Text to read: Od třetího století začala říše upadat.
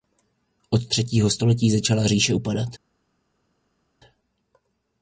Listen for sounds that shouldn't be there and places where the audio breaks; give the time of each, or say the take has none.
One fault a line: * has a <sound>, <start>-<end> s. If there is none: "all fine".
all fine